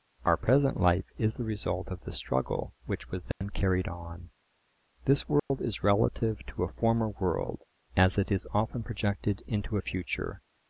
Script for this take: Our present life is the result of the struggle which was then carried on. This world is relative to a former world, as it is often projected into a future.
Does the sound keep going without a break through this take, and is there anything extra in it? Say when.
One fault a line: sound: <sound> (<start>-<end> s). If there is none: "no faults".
sound: dropout (3.3-3.4 s)
sound: dropout (5.4-5.5 s)